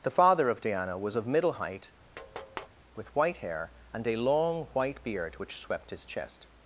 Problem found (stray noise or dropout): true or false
true